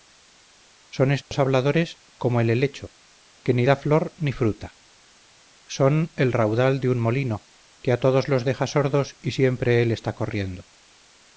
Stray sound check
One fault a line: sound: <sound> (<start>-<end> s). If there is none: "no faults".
sound: dropout (1.2-1.3 s)